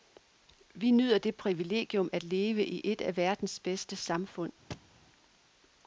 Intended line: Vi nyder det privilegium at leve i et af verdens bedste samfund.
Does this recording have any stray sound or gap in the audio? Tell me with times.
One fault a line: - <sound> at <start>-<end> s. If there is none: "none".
- thud at 4.7-5.0 s